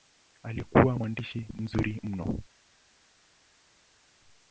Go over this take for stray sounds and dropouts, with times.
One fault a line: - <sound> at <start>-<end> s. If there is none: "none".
none